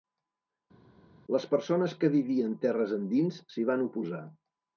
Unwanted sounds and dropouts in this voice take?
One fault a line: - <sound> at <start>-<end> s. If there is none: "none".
none